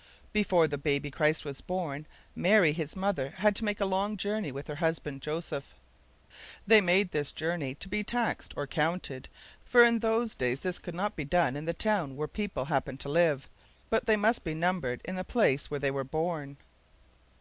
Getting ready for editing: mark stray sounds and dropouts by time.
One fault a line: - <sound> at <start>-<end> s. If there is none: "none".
none